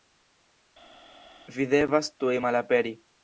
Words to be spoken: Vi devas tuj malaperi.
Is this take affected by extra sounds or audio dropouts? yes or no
no